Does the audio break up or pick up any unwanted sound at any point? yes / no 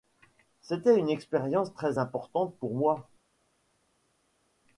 no